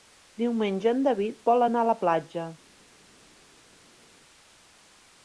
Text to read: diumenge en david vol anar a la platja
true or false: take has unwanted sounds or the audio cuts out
false